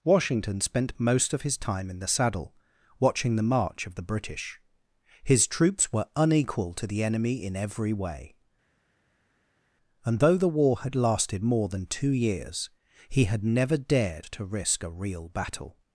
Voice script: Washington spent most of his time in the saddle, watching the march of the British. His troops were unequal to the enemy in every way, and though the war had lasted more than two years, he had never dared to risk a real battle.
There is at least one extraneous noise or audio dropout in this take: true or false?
false